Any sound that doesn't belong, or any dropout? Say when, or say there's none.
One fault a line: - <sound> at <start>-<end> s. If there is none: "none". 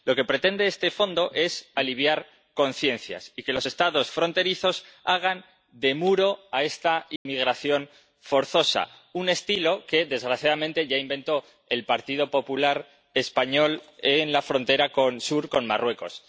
- dropout at 7.2-7.3 s